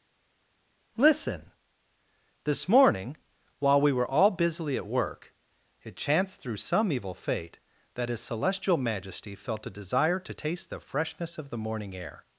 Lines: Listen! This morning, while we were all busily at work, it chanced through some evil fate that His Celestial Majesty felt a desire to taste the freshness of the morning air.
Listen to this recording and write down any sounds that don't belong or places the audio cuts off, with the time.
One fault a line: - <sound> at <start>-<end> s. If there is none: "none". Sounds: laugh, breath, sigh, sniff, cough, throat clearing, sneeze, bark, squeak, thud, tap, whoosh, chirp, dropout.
none